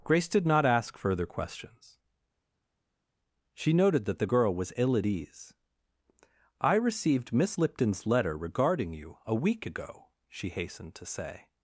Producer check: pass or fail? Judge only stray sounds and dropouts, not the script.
pass